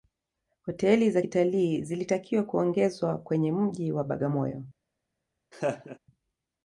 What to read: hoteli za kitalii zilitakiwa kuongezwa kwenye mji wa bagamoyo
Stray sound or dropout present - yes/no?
yes